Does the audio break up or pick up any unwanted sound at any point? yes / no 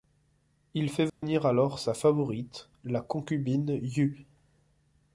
yes